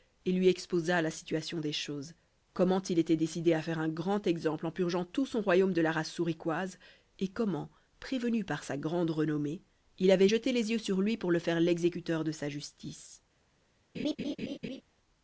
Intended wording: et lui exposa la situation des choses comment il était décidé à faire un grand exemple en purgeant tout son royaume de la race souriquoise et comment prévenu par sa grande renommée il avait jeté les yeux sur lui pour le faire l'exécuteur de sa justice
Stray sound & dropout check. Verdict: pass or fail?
fail